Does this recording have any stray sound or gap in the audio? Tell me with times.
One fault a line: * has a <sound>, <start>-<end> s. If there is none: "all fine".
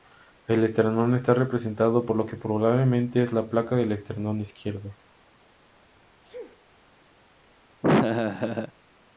* has a sneeze, 6.2-6.7 s
* has a laugh, 7.8-8.7 s